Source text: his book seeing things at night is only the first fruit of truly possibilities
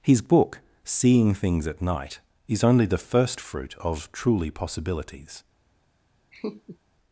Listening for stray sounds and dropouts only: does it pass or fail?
fail